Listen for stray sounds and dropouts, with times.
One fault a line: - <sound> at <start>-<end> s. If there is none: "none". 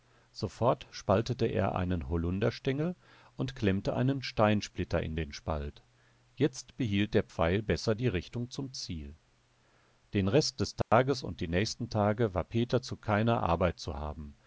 - dropout at 10.8-10.9 s